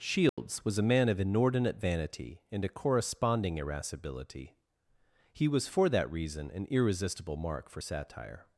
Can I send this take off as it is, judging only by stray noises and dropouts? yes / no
no